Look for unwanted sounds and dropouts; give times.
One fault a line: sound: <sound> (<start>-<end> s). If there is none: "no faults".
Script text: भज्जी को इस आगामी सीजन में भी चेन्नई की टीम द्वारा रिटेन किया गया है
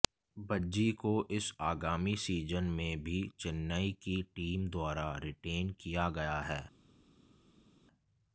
no faults